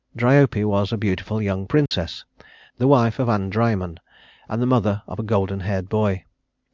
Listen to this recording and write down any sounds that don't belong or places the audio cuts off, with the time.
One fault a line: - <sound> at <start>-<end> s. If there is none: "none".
- dropout at 1.9-1.9 s